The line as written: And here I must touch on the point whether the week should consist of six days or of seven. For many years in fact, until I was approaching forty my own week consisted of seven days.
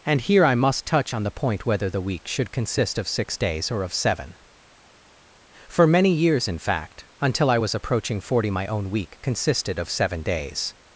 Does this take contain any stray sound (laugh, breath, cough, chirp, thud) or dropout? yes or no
no